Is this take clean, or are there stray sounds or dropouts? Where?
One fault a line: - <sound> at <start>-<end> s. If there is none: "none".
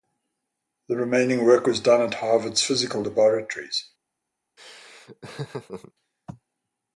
- laugh at 4.6-5.9 s